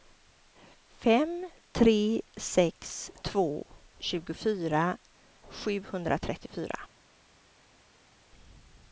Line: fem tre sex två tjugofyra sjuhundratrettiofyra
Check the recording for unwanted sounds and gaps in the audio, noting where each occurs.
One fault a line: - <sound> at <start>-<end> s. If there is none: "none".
none